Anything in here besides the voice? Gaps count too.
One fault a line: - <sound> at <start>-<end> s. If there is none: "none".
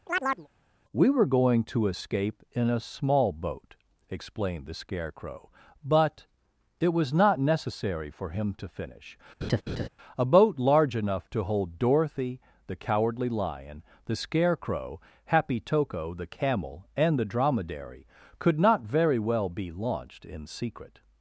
- chirp at 0.1-0.5 s
- laugh at 9.4-9.9 s